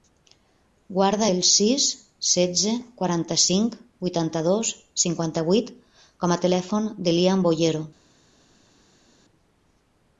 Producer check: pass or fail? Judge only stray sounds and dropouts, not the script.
pass